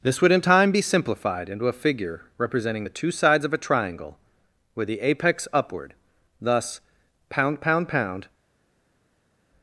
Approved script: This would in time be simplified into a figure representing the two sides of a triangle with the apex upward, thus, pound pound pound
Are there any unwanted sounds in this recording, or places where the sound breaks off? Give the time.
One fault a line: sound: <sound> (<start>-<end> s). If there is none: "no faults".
no faults